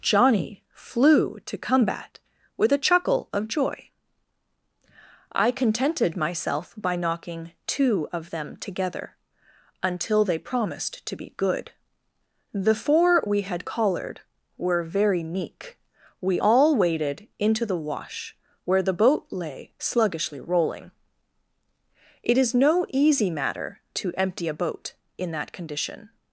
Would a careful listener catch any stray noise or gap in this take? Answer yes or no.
no